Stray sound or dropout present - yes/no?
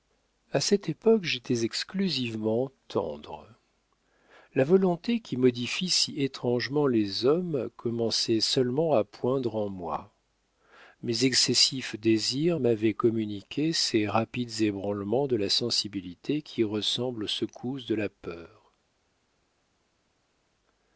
no